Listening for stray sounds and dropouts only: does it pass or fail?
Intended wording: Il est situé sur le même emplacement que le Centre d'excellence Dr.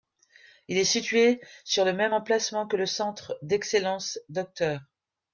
pass